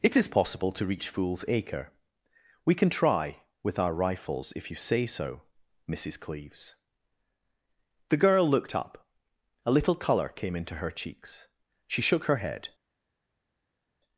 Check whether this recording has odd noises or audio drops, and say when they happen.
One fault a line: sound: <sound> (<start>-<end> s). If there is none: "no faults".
no faults